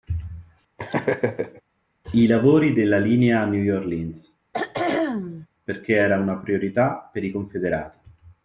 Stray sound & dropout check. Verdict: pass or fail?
fail